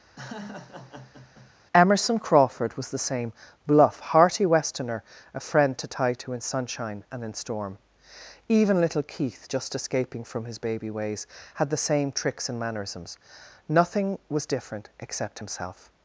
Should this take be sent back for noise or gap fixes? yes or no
yes